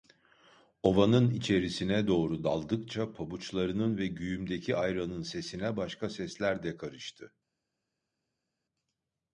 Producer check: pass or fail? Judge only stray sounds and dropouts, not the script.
pass